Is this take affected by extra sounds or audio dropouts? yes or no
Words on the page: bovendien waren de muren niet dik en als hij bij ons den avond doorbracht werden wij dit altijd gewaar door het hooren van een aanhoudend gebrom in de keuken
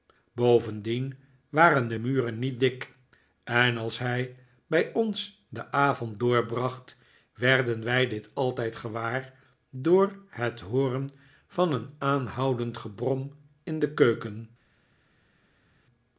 no